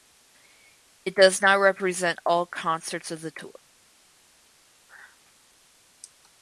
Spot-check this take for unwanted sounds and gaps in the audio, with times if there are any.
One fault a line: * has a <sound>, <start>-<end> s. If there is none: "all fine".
all fine